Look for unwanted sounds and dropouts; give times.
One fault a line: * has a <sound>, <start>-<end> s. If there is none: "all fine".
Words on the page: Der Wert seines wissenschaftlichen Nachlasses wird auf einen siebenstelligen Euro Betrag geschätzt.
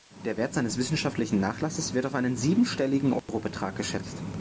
* has a dropout, 3.2-3.3 s